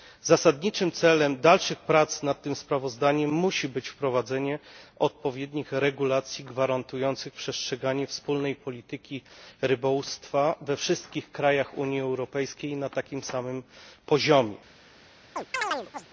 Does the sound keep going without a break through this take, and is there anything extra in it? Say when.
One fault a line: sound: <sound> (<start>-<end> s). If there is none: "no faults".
sound: chirp (15.4-16.1 s)